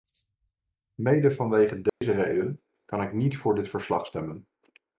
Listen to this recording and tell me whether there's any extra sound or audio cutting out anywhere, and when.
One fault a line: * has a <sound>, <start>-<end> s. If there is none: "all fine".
* has a dropout, 1.9-2.0 s